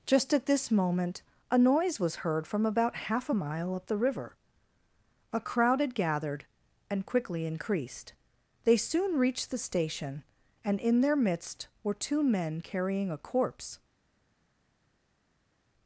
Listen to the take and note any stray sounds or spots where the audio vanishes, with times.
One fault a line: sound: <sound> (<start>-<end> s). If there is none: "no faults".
no faults